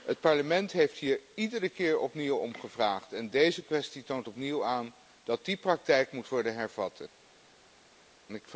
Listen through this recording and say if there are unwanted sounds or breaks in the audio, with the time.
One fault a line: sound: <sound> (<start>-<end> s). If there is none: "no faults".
no faults